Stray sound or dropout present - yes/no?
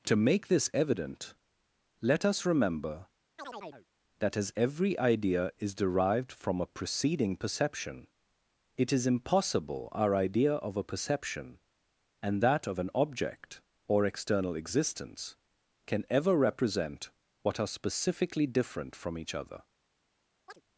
yes